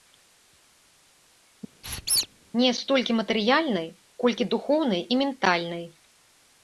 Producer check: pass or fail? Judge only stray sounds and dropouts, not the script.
fail